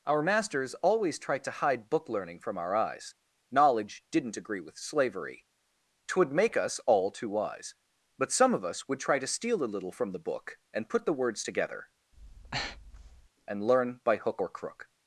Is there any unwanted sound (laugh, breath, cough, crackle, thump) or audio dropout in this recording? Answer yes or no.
yes